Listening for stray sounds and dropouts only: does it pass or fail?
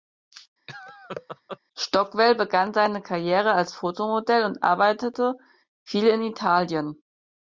fail